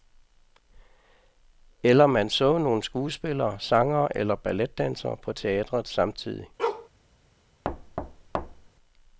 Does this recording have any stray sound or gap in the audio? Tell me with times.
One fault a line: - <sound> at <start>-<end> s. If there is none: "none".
- bark at 6.6-6.9 s
- thud at 7.6-8.7 s